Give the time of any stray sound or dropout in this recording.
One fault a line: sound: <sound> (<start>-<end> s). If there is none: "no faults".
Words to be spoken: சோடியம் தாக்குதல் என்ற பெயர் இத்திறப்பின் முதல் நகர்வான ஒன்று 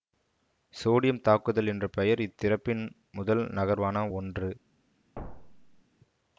sound: thud (5.2-5.8 s)